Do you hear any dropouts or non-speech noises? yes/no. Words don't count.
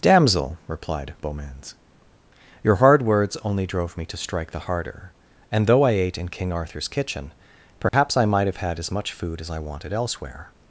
yes